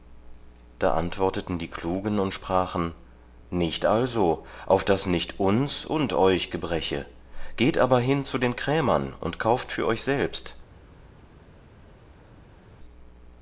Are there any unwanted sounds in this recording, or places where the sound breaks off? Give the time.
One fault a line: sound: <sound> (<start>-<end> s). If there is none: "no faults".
no faults